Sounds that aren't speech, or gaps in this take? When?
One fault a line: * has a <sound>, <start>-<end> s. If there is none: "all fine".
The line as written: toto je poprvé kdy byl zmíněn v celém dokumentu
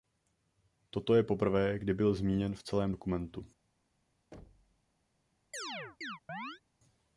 * has a thud, 4.3-4.8 s
* has a chirp, 5.5-6.6 s